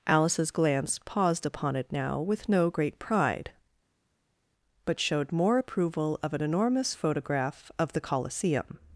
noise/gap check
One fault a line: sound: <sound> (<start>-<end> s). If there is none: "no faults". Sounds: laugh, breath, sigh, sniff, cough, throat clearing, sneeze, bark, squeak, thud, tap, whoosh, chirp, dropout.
no faults